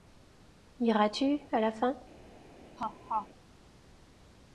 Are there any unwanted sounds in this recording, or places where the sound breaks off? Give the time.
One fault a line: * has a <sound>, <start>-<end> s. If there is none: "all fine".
* has a laugh, 2.8-3.3 s